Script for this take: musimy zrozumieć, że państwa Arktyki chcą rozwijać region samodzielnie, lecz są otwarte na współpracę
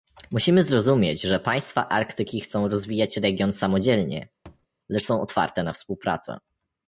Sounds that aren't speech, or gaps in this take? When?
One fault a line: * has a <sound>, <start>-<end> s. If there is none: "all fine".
* has a thud, 4.5-4.7 s